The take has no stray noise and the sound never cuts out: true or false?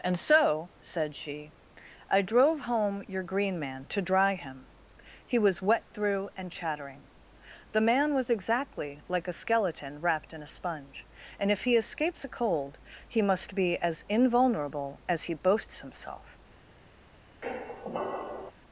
false